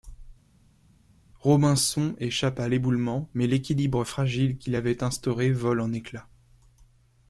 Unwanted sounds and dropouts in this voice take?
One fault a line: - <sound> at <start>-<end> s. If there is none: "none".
none